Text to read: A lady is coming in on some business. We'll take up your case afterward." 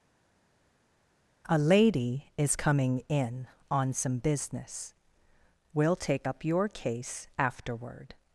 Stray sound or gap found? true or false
false